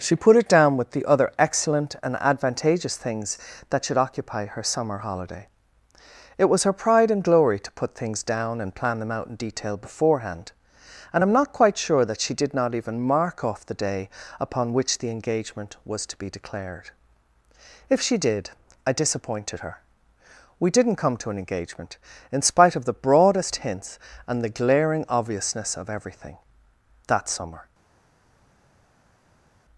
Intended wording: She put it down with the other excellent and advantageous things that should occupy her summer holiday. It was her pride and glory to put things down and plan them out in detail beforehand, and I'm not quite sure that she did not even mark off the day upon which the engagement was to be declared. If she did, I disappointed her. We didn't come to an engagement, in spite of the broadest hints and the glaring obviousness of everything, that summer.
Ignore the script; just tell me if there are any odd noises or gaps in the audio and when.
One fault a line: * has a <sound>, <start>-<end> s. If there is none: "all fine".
all fine